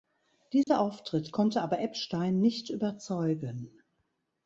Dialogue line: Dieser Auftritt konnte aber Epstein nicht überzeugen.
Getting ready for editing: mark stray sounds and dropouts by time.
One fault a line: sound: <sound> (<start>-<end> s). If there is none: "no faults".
sound: dropout (0.6-0.7 s)